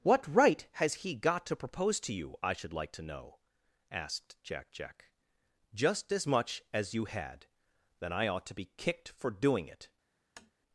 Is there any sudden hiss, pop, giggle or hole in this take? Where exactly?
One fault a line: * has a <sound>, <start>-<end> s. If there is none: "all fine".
* has a tap, 10.4-10.5 s